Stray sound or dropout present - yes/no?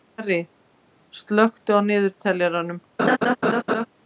yes